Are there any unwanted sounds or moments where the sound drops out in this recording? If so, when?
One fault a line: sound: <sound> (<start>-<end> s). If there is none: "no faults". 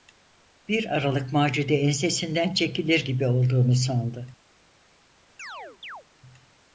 sound: chirp (5.4-6.0 s)